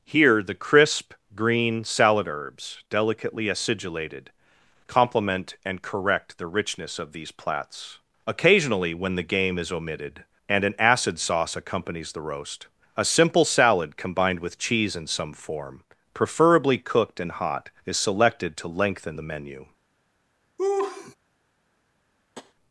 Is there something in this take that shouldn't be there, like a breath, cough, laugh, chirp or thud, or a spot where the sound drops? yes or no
yes